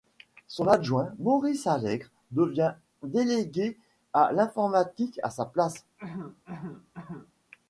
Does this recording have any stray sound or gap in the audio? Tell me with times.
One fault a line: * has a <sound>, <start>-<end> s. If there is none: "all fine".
* has a cough, 6.0-7.3 s